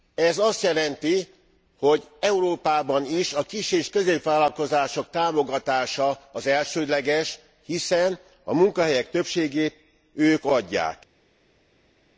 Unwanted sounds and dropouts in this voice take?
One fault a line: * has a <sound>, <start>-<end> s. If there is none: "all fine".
all fine